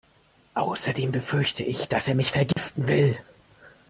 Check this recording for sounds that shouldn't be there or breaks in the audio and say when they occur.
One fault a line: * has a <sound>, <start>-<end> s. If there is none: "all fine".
* has a dropout, 2.5-2.6 s